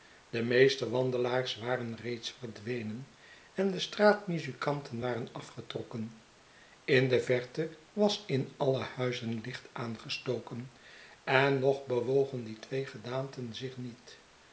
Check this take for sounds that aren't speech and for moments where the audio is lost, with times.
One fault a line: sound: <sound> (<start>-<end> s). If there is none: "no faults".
no faults